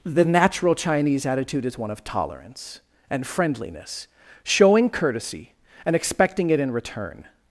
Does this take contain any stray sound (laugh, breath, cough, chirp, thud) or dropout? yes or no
no